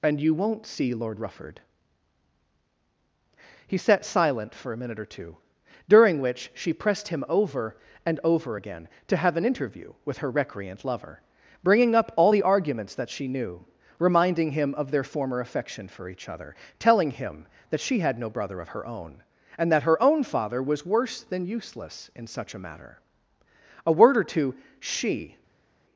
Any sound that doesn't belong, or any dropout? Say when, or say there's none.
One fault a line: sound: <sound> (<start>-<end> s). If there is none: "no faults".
no faults